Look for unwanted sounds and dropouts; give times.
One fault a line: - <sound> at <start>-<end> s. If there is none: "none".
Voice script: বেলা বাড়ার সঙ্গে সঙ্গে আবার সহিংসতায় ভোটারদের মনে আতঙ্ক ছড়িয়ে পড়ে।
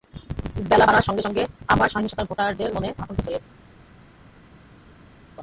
none